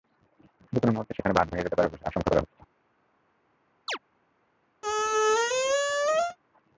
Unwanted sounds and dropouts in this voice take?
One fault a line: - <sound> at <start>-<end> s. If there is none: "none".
- chirp at 3.9-4.0 s
- squeak at 4.8-6.4 s